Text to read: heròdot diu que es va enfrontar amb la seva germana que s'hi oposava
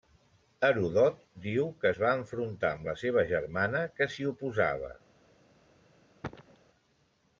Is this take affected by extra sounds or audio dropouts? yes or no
yes